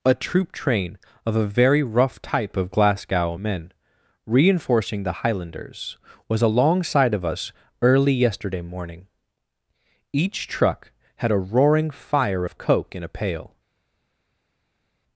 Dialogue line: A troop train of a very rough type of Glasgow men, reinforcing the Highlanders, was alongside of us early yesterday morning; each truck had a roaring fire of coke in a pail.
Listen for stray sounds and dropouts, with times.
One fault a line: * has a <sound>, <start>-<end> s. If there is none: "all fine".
all fine